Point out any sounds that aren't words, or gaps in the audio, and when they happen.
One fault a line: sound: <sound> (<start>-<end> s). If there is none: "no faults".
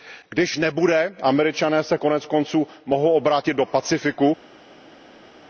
no faults